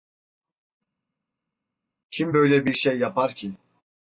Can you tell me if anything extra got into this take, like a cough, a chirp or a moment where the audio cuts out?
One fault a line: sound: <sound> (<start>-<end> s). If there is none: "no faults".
no faults